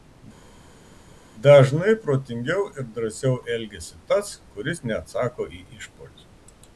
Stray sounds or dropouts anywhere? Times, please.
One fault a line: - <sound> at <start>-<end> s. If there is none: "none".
none